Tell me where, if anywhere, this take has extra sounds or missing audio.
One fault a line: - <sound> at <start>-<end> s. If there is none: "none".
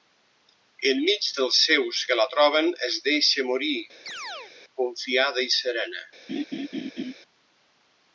- chirp at 4.1-4.5 s
- laugh at 6.3-7.1 s